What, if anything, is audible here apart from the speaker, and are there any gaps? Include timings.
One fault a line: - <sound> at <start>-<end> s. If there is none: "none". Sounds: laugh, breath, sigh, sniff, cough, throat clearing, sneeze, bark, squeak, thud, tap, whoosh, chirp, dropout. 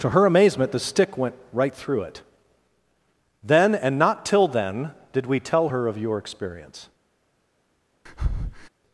- breath at 8.1-8.7 s